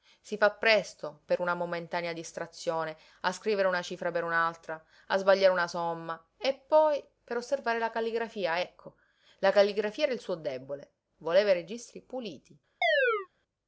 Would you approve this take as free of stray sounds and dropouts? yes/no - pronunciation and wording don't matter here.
no